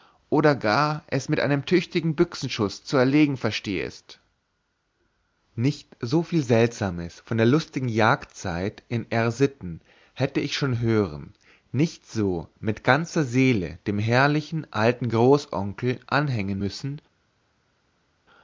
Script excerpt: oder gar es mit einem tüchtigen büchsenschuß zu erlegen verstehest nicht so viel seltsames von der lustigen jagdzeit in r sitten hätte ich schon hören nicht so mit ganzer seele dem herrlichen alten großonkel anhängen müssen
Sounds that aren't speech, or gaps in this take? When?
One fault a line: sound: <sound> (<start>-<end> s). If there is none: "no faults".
no faults